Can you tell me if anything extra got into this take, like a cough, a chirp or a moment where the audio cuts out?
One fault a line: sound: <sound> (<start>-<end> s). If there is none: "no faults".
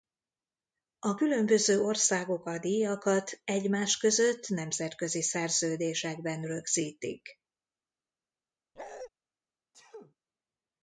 sound: bark (8.8-9.1 s)
sound: sneeze (9.7-10.2 s)